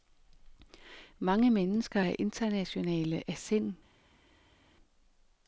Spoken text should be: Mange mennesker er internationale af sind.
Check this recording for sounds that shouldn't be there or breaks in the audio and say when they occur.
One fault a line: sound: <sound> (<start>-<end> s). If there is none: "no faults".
no faults